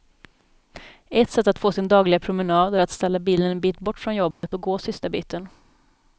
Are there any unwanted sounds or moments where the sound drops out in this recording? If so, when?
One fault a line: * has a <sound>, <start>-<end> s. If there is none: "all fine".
* has a dropout, 4.3-4.4 s